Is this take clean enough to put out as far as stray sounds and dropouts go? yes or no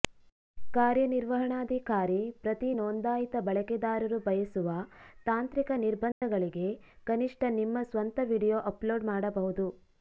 no